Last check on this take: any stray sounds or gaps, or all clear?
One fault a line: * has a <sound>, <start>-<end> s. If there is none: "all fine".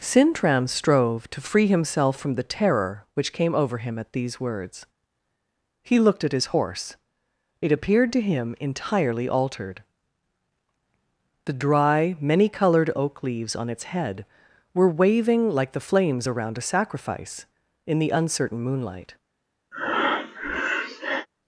* has a breath, 19.7-21.3 s